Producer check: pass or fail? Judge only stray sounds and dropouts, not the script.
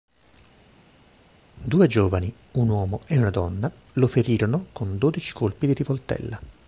pass